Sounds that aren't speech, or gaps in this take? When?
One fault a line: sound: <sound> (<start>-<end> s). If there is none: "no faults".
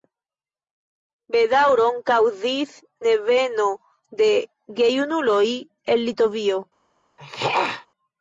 sound: throat clearing (7.2-7.9 s)